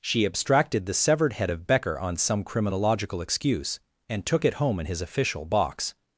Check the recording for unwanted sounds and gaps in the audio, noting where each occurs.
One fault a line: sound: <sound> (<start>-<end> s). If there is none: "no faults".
no faults